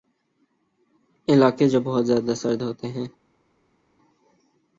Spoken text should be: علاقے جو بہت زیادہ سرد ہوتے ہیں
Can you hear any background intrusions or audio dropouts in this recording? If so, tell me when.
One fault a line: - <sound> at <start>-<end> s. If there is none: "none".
none